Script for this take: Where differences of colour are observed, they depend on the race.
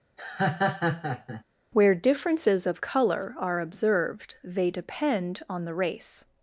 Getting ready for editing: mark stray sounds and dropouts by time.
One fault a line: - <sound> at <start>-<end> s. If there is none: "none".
- laugh at 0.2-1.4 s